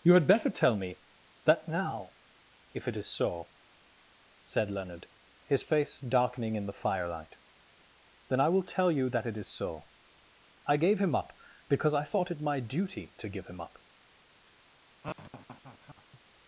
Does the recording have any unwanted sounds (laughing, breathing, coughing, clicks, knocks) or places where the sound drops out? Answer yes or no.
yes